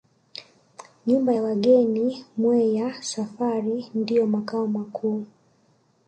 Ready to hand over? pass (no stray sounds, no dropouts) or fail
pass